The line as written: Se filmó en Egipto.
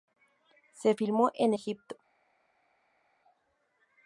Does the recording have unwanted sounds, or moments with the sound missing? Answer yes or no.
no